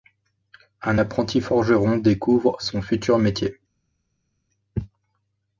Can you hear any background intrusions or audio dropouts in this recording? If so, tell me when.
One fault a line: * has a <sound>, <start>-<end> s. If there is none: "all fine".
all fine